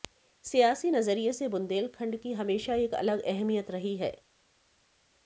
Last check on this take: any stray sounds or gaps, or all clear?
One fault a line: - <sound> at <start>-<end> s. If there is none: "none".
none